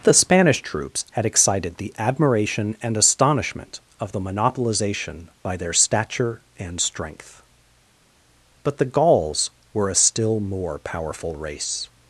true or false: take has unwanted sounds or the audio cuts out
false